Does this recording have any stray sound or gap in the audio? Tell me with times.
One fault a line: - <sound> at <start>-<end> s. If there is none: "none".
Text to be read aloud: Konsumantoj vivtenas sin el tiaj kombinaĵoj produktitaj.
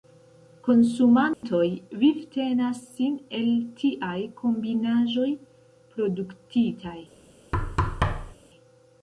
- dropout at 1.3-1.4 s
- thud at 7.5-8.4 s